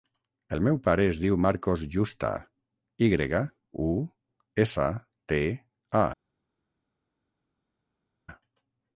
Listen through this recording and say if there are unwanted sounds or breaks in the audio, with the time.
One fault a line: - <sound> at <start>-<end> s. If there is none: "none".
none